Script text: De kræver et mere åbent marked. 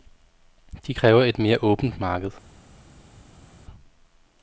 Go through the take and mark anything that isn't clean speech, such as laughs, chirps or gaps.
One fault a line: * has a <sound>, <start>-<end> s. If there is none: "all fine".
all fine